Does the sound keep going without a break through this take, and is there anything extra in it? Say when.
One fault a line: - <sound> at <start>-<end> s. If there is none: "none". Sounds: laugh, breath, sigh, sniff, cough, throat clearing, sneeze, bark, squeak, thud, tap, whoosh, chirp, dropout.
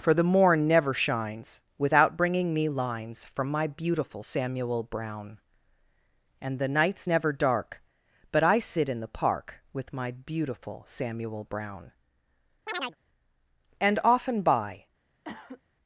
- chirp at 12.7-13.0 s
- cough at 15.2-15.6 s